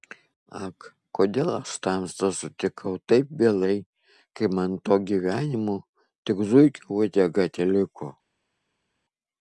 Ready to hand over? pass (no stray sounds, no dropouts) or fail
pass